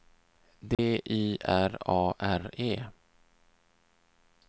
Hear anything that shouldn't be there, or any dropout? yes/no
yes